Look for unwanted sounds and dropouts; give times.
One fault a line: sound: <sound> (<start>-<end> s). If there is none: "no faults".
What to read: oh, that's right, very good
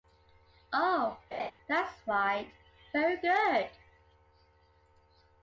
sound: laugh (1.3-1.5 s)